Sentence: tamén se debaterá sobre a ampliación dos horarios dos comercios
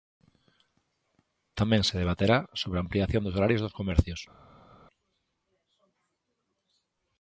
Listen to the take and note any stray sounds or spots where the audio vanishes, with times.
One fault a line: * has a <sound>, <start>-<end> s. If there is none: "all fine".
all fine